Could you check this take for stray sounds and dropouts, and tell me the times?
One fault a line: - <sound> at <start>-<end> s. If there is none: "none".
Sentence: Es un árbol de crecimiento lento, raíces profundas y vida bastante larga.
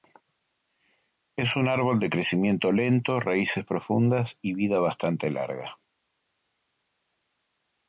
none